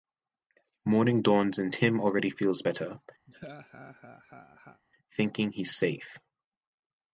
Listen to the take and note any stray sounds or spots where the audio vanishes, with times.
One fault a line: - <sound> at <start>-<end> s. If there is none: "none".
- laugh at 3.3-4.8 s